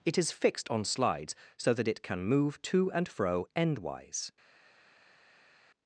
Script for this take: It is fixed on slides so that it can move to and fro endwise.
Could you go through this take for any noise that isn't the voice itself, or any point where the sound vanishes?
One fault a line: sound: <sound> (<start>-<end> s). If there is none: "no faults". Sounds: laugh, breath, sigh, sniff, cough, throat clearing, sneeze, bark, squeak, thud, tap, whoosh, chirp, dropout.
no faults